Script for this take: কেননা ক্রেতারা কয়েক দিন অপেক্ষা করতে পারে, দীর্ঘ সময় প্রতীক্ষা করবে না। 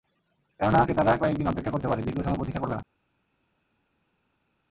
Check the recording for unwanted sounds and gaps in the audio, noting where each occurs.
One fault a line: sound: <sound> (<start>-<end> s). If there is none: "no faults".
no faults